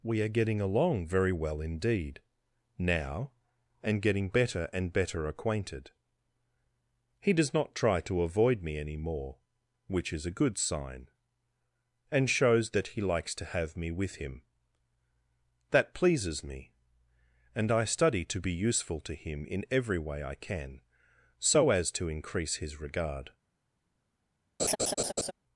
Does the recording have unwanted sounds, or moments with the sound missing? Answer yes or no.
yes